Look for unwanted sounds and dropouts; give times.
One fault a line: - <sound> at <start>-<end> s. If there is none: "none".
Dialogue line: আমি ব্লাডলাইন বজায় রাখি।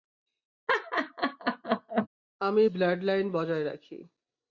- laugh at 0.7-2.1 s